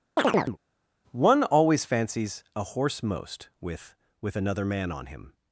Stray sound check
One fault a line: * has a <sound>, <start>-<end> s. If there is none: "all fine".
* has a chirp, 0.2-0.6 s